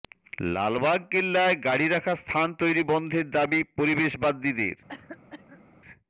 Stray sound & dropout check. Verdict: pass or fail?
fail